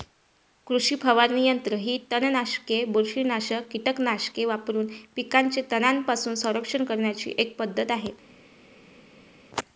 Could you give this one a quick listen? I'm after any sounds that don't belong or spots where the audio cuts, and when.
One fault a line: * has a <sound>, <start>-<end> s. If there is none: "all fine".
all fine